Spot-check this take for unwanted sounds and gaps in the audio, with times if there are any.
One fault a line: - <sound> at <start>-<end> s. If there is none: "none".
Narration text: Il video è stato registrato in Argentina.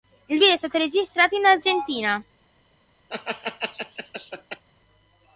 - laugh at 3.1-4.6 s